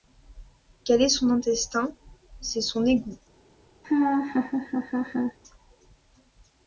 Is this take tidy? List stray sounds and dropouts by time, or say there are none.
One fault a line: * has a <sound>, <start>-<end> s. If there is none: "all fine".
* has a laugh, 3.8-5.4 s